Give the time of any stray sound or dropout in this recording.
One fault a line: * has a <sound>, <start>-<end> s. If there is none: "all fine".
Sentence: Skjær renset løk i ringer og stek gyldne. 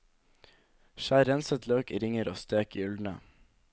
all fine